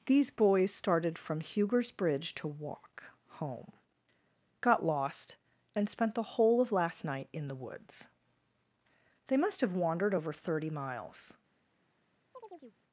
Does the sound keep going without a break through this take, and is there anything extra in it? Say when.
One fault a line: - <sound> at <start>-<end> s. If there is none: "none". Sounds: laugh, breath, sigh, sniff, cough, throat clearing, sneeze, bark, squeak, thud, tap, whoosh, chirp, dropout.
- chirp at 12.3-12.8 s